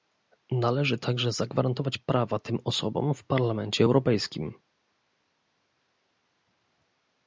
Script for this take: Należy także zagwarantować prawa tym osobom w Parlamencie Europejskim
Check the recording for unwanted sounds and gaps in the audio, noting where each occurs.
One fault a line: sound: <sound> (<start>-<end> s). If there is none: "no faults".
no faults